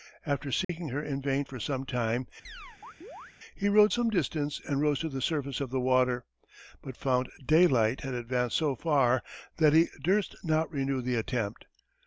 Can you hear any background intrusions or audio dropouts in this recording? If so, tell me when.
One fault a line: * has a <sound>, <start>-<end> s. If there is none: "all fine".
* has a dropout, 0.6-0.7 s
* has a chirp, 2.4-3.4 s